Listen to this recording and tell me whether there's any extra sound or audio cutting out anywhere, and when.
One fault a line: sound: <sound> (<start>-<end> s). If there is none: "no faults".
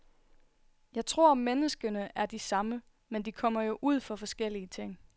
no faults